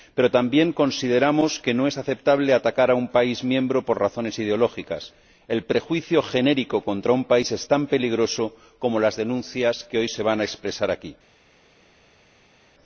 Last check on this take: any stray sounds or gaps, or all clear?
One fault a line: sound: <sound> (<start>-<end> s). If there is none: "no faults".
no faults